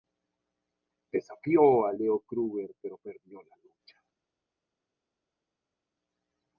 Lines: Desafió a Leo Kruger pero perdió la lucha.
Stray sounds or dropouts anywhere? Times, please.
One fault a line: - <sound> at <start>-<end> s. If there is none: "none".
none